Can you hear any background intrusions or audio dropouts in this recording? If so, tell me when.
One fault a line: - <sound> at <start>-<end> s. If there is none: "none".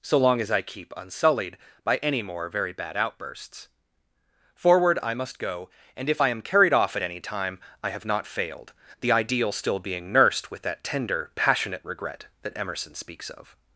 none